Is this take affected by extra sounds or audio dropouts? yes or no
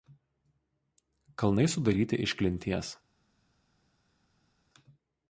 no